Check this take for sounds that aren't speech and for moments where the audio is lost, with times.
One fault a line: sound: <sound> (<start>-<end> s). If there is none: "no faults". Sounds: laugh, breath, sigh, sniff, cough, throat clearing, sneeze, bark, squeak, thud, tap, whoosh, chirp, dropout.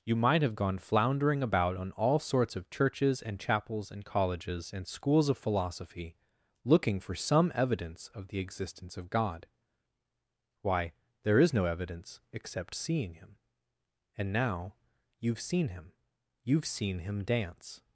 no faults